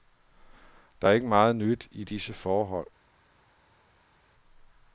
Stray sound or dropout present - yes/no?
no